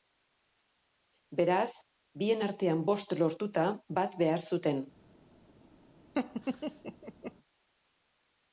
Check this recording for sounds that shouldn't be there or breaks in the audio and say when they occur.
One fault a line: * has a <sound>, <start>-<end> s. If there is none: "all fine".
* has a laugh, 6.1-7.3 s